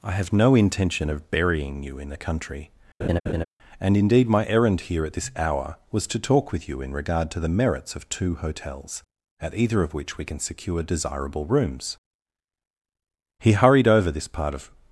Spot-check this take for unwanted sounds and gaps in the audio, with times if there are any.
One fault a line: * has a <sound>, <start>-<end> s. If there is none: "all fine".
* has a laugh, 3.0-3.4 s